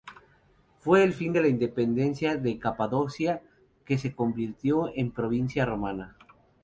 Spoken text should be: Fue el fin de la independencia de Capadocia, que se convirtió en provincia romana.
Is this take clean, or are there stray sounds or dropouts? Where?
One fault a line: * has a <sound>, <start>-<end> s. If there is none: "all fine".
all fine